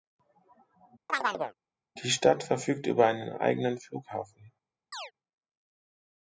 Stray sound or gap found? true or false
true